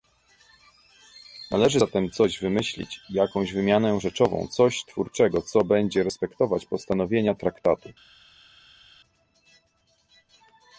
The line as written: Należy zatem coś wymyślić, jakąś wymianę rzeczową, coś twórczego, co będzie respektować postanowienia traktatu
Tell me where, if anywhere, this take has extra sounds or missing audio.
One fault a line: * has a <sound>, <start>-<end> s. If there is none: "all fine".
all fine